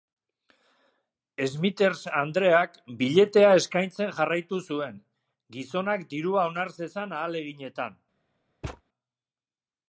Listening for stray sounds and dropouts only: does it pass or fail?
fail